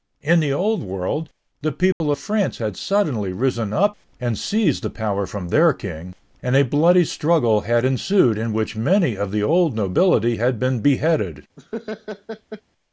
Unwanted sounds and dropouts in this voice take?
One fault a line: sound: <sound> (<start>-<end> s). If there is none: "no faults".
sound: dropout (1.9-2.0 s)
sound: laugh (11.6-12.6 s)